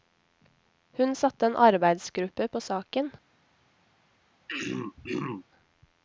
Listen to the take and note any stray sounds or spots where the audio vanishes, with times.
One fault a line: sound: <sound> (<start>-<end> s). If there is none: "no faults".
sound: throat clearing (4.5-5.5 s)